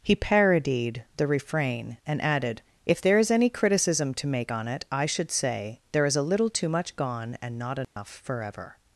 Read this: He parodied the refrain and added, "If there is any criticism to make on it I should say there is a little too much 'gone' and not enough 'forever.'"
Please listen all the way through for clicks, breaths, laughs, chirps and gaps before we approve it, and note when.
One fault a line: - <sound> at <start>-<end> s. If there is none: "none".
- dropout at 7.8-8.0 s